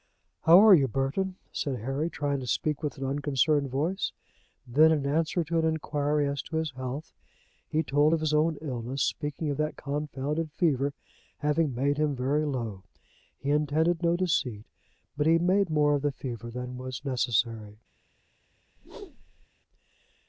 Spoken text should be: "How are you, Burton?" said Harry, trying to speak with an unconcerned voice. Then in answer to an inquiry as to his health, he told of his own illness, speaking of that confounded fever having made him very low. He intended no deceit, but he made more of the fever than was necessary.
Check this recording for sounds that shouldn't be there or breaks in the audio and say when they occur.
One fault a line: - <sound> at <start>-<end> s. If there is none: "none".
- whoosh at 18.8-19.5 s